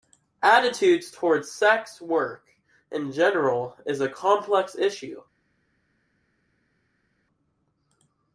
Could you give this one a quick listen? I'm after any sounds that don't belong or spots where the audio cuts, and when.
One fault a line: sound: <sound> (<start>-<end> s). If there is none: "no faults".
no faults